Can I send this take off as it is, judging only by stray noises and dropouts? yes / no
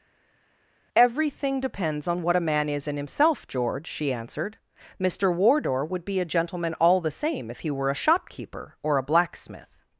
yes